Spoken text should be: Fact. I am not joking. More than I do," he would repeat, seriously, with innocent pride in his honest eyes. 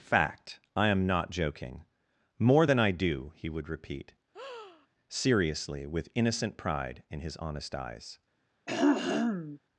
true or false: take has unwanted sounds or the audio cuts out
true